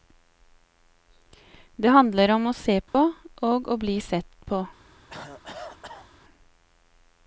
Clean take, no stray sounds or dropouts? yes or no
no